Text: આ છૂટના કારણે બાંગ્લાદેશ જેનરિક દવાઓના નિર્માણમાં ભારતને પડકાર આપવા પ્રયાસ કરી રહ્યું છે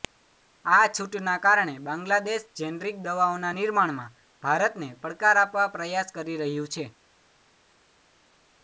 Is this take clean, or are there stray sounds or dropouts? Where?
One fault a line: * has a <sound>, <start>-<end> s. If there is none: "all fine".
all fine